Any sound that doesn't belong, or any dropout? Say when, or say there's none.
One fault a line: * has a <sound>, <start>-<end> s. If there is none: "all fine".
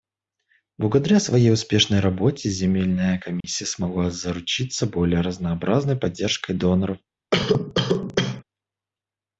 * has a dropout, 3.4-3.4 s
* has a cough, 7.3-8.4 s